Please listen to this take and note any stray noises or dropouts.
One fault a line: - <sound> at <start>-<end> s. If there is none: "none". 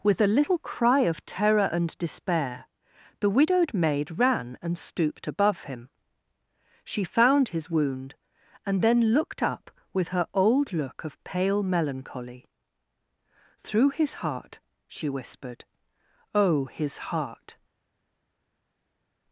none